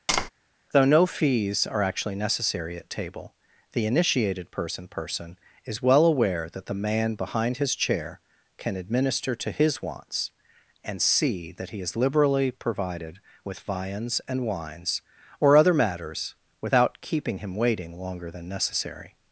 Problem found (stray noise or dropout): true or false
true